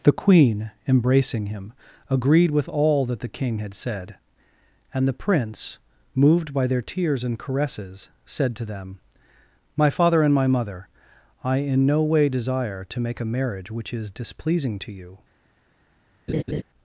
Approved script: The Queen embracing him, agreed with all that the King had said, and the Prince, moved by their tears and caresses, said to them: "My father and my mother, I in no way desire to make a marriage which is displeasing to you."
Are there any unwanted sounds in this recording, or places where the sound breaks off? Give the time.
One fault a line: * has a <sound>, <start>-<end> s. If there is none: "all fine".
* has a laugh, 16.3-16.6 s